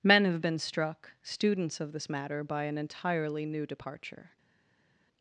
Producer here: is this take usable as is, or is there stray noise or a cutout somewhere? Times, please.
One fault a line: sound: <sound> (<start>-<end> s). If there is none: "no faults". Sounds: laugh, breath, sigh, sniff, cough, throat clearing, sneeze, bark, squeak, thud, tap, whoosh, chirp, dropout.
no faults